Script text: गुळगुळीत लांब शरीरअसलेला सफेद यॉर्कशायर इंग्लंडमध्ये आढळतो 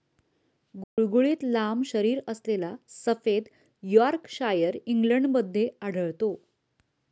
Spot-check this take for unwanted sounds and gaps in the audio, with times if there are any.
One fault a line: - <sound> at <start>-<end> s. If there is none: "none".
- dropout at 0.8-1.0 s